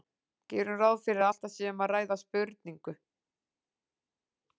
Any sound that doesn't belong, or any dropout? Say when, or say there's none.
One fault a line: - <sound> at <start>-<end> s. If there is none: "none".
none